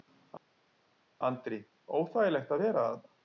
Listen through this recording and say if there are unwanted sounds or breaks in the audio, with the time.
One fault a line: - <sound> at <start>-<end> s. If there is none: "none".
none